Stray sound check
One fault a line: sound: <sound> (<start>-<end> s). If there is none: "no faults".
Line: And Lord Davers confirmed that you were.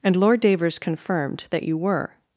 no faults